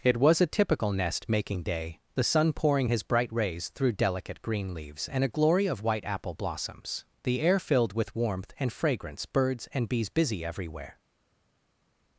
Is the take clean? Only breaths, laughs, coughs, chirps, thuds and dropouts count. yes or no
yes